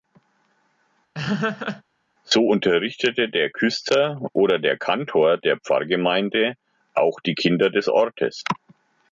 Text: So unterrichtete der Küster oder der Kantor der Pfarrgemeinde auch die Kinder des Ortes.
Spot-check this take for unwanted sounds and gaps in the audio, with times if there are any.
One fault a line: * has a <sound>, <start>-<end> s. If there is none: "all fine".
* has a laugh, 1.1-1.8 s